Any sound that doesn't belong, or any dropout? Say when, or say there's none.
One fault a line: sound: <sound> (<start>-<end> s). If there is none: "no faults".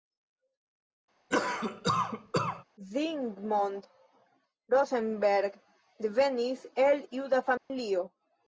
sound: cough (1.3-2.6 s)
sound: dropout (7.6-7.7 s)